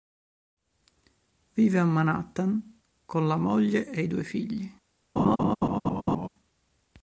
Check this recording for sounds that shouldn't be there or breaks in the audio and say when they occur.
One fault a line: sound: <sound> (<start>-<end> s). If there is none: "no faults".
sound: laugh (5.2-6.3 s)